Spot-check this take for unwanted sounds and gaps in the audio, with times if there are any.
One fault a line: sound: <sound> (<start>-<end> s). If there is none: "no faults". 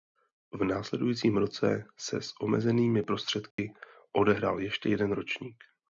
sound: dropout (3.5-3.6 s)